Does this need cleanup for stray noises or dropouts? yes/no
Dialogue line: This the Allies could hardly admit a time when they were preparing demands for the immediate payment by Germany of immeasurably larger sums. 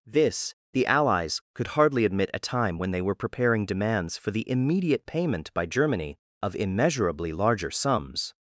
no